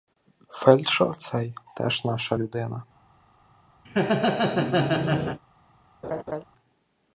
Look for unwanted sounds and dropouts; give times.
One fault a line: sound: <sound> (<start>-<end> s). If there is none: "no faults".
sound: laugh (3.8-5.4 s)
sound: laugh (6.0-6.4 s)